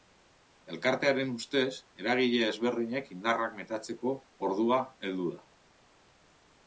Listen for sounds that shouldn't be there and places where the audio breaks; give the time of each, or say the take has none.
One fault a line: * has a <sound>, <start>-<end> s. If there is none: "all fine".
all fine